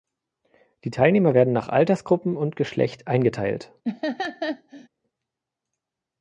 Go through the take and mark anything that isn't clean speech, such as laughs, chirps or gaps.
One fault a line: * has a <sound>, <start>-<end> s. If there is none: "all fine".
* has a laugh, 3.8-4.9 s